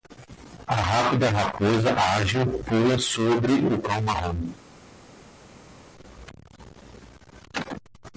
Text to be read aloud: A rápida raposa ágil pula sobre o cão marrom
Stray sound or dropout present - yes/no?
no